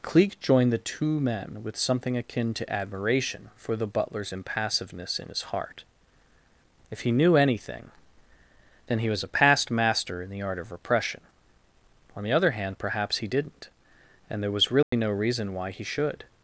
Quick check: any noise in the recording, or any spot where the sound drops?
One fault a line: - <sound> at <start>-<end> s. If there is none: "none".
- dropout at 14.8-14.9 s